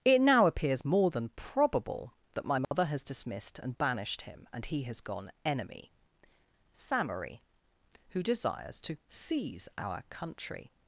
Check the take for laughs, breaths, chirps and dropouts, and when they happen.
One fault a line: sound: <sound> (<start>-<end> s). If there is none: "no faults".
sound: dropout (2.6-2.7 s)